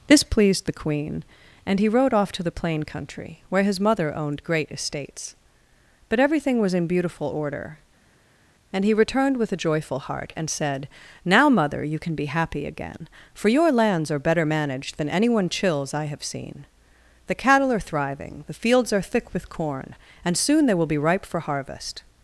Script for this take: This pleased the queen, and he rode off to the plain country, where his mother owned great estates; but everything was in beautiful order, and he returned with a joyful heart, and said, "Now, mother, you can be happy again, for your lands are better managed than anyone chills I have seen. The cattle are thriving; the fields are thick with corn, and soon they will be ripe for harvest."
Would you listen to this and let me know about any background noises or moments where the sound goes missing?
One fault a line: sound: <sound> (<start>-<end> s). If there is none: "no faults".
no faults